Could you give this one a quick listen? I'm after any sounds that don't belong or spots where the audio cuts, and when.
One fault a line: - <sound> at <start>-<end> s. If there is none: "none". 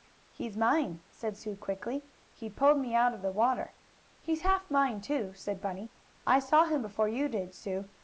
none